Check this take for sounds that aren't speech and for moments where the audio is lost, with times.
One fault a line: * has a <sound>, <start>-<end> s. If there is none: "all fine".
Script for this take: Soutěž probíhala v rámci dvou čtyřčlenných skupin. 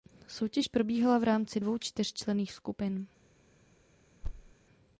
* has a thud, 4.2-4.5 s